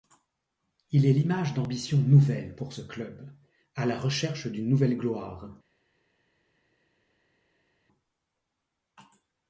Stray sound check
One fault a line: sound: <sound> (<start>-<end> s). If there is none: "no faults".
no faults